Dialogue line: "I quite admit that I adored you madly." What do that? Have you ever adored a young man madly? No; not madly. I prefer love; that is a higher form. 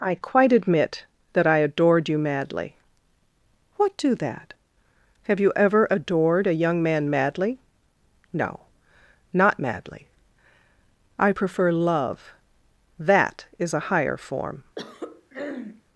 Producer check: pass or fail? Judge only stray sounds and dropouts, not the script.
fail